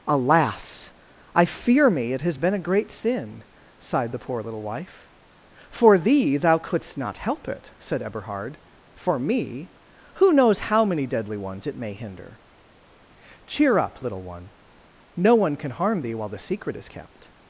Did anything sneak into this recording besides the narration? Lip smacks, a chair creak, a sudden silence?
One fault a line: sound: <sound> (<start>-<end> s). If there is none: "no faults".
no faults